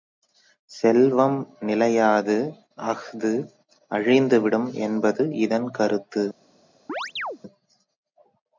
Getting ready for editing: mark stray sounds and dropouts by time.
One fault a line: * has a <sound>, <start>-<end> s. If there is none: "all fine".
* has a chirp, 6.9-7.4 s